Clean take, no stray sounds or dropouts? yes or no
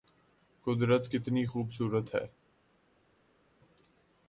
yes